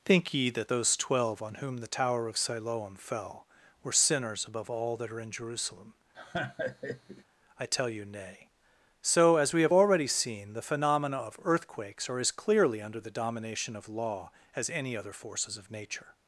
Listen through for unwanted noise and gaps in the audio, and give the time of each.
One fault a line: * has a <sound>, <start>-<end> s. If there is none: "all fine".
* has a laugh, 6.1-7.2 s